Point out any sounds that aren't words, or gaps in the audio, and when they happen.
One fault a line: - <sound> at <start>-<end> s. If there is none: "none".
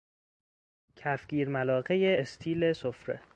none